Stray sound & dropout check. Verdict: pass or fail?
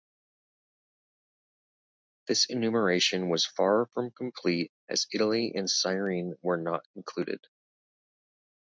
pass